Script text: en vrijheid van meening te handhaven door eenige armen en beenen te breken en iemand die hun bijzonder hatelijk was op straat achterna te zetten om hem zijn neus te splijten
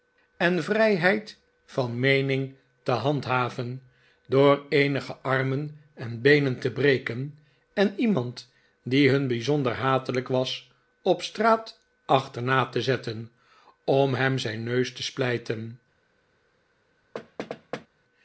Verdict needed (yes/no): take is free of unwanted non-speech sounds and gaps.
no